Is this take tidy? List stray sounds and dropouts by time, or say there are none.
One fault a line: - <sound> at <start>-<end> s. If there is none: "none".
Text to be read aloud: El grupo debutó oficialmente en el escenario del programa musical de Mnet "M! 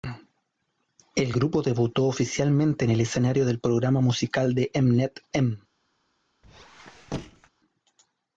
- squeak at 6.4-7.5 s